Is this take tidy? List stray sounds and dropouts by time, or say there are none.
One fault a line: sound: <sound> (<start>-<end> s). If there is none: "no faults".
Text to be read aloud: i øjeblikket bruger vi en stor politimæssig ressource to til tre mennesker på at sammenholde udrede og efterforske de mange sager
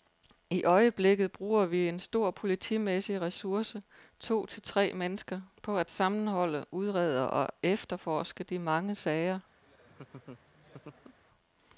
sound: laugh (9.6-11.2 s)